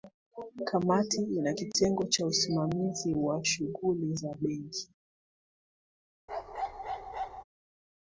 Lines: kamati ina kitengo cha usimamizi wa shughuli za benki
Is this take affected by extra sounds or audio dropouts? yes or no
yes